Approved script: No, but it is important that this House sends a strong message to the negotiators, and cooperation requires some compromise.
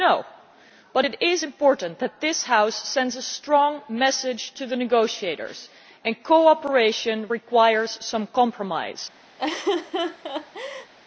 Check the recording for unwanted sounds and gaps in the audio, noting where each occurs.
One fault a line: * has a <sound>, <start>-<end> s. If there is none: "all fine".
* has a laugh, 9.4-10.9 s